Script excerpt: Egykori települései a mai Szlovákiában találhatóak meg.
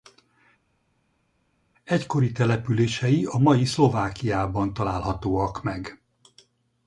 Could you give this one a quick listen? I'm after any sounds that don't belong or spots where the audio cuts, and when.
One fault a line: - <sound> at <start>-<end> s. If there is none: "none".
none